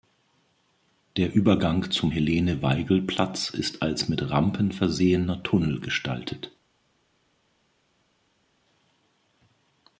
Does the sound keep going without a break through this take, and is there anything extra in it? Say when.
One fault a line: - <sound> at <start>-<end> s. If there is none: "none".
none